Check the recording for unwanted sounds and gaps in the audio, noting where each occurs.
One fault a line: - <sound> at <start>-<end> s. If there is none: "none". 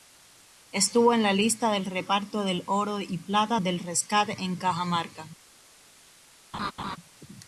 - laugh at 6.5-7.0 s